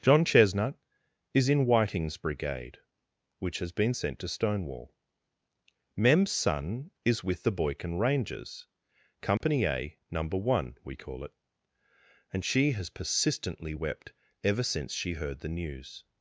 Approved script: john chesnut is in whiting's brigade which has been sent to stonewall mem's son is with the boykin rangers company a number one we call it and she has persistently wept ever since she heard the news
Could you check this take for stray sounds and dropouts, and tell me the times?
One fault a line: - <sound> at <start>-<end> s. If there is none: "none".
- dropout at 9.4-9.4 s